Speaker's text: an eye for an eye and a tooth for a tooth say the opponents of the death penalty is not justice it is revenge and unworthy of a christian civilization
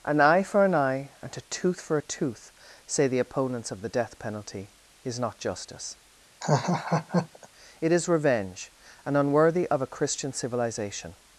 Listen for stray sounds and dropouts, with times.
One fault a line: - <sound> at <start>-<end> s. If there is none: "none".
- laugh at 6.4-7.5 s